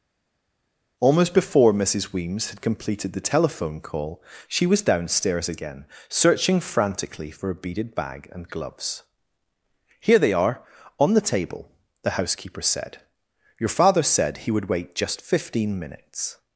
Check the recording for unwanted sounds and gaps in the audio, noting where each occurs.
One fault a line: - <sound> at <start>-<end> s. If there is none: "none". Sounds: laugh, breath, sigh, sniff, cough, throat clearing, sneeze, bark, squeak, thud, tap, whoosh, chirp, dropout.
none